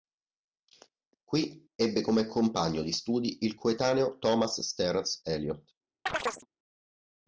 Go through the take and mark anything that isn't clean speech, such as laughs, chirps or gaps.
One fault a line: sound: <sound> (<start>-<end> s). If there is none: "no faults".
sound: chirp (6.1-6.5 s)